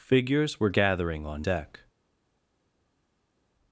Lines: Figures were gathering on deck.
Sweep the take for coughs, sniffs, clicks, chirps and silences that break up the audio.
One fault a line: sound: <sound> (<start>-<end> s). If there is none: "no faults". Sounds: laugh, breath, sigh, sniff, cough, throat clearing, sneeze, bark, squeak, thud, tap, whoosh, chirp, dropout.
no faults